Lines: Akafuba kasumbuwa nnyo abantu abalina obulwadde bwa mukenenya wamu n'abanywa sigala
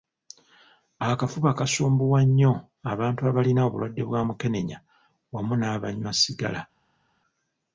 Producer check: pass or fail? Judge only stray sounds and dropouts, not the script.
pass